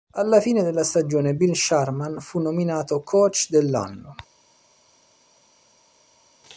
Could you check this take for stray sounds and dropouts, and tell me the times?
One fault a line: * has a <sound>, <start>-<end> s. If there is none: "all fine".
all fine